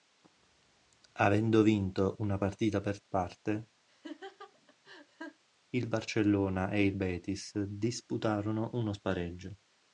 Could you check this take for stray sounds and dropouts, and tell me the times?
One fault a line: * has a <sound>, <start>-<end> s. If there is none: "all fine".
* has a laugh, 3.9-5.4 s